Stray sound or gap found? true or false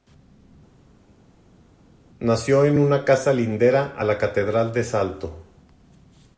false